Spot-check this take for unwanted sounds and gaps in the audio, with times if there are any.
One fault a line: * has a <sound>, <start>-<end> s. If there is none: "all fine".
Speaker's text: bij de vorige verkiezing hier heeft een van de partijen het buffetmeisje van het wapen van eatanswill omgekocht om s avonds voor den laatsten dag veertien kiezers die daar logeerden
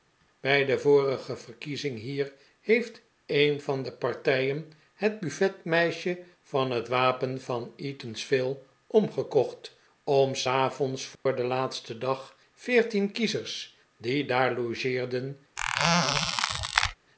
* has a dropout, 11.2-11.3 s
* has a squeak, 15.6-17.0 s